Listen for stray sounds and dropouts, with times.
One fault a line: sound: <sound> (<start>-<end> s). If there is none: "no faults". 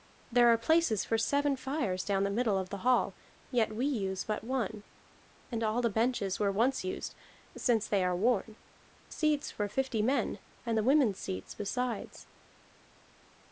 no faults